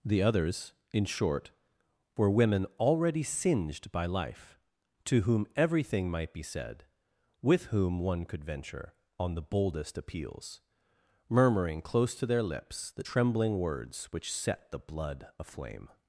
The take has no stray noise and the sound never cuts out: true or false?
true